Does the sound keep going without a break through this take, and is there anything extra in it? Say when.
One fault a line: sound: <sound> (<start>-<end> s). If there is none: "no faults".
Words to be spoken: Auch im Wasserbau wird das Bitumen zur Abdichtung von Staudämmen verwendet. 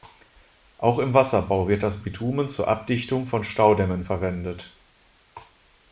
no faults